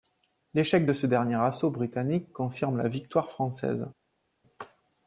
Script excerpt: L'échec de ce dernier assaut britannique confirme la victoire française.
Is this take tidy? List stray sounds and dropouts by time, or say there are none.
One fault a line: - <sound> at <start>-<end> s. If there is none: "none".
none